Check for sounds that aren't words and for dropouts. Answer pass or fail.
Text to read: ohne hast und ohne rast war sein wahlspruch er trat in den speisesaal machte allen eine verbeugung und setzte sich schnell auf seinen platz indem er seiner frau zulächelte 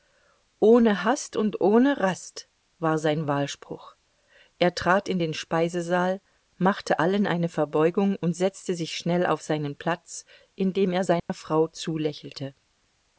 fail